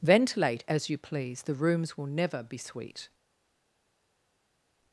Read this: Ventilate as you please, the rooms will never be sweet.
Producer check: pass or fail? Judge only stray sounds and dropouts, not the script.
pass